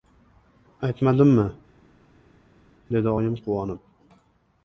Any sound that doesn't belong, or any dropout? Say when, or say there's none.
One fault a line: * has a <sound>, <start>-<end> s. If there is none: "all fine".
all fine